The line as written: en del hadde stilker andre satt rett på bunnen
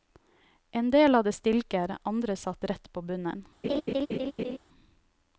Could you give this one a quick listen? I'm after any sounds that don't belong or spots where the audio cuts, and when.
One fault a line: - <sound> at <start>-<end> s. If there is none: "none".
- laugh at 3.6-4.6 s